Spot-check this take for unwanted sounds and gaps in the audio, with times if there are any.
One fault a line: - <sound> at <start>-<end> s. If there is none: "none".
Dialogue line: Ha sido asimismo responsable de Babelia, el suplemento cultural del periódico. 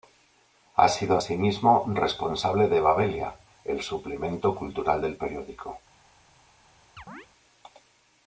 - chirp at 7.0-7.3 s